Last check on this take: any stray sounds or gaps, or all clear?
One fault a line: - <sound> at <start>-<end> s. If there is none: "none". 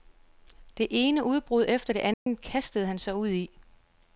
- dropout at 2.1-2.3 s